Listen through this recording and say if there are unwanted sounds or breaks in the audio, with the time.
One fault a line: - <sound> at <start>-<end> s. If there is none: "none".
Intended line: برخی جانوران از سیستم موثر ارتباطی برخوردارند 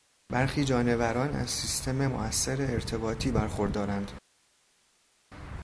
none